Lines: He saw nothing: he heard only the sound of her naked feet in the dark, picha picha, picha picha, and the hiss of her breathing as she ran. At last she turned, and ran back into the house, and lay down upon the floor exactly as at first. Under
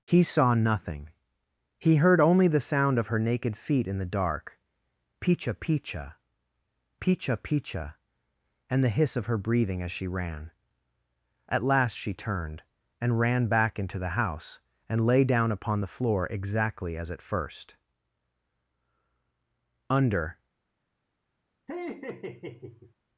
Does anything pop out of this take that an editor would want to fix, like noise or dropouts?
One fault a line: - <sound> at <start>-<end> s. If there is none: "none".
- laugh at 21.7-22.9 s